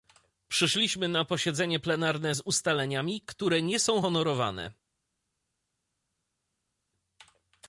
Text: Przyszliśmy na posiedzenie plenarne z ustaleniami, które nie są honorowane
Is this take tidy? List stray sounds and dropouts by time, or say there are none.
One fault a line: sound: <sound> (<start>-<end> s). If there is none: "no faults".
no faults